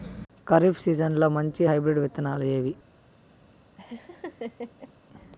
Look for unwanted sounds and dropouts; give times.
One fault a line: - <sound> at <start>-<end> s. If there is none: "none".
- laugh at 3.8-4.9 s